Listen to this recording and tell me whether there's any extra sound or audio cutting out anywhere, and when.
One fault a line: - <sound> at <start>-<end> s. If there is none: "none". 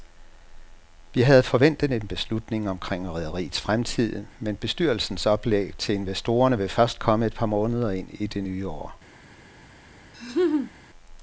- laugh at 10.1-10.7 s